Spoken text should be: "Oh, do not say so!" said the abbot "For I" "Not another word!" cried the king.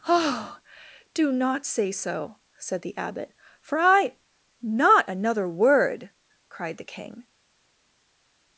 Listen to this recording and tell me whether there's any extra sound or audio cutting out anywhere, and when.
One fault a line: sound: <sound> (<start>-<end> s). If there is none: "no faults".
no faults